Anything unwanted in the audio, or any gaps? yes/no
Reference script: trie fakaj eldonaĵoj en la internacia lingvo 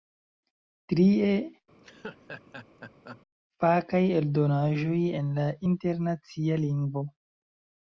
yes